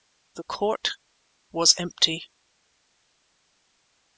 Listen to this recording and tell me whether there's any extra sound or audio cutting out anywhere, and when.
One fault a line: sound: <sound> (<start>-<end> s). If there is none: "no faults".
no faults